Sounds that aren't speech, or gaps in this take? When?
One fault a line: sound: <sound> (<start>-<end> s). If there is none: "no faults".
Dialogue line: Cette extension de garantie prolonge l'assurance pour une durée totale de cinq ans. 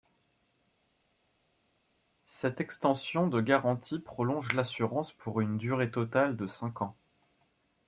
no faults